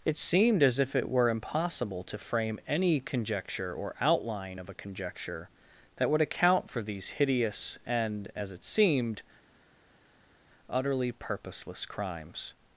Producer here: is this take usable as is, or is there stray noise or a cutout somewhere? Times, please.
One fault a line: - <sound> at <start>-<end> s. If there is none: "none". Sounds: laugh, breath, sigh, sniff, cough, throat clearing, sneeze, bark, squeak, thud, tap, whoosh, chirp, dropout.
none